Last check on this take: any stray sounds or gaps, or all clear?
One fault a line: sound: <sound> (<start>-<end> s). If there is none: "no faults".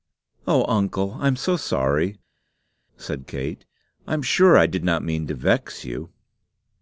no faults